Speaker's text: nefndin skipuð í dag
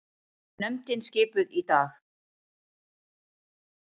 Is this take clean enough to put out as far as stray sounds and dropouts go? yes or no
yes